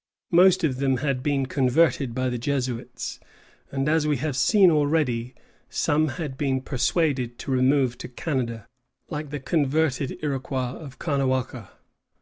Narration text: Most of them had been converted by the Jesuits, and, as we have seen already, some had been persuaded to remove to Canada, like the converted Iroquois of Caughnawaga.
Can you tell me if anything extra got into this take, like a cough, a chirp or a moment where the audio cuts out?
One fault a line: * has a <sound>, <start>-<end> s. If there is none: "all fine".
all fine